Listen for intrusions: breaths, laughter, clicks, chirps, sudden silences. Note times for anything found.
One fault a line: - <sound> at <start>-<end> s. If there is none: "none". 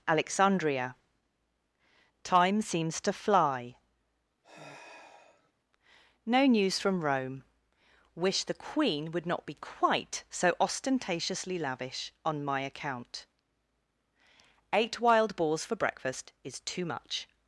- sigh at 4.4-5.5 s